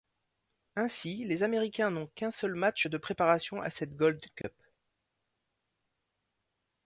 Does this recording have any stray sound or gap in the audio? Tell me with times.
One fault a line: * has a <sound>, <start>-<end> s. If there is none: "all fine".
* has a dropout, 4.4-4.4 s